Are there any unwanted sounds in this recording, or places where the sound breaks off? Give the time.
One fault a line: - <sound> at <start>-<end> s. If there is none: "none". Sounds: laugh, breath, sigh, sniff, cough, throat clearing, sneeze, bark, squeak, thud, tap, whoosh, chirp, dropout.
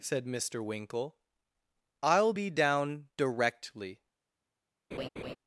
- laugh at 4.9-5.4 s